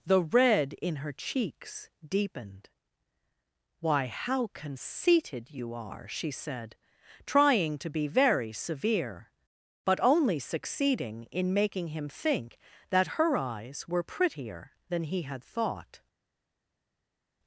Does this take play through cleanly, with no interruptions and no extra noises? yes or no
yes